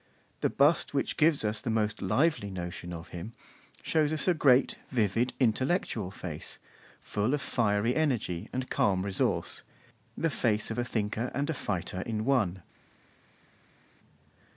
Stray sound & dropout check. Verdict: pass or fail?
pass